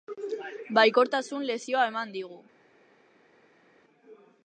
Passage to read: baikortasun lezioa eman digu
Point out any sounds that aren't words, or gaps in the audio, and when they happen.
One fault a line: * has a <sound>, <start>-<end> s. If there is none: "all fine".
all fine